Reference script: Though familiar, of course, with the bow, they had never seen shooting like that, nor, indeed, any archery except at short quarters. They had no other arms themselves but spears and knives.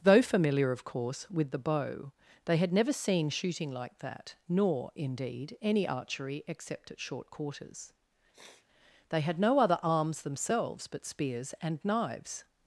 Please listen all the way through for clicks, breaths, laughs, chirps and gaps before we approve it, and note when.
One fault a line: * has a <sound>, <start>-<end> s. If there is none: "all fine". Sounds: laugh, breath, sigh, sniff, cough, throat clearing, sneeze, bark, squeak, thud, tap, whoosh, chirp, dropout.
* has a sniff, 8.3-8.7 s